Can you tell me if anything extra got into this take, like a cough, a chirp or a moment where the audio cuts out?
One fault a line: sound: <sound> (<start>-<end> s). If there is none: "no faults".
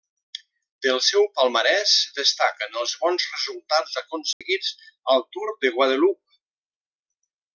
sound: dropout (4.3-4.4 s)